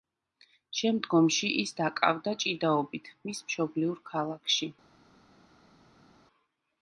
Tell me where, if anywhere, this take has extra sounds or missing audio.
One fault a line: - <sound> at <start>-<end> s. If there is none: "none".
none